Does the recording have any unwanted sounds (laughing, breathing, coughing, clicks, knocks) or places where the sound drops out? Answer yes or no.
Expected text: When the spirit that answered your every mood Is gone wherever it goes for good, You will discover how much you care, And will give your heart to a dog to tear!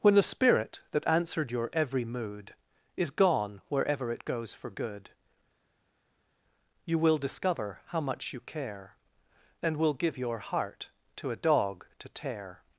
no